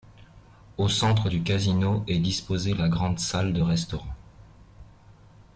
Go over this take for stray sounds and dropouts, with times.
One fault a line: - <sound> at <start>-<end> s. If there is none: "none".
none